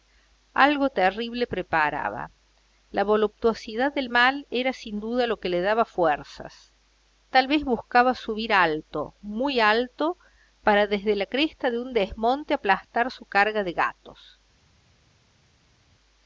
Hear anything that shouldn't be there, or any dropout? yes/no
no